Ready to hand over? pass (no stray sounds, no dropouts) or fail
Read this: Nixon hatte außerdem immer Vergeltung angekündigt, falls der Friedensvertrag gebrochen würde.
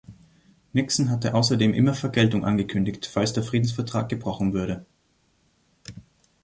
pass